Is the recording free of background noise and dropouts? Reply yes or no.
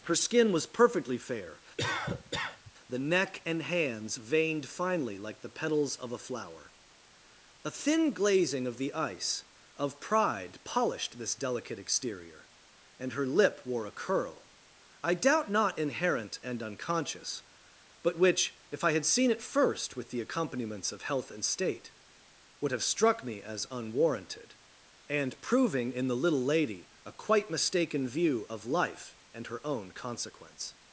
no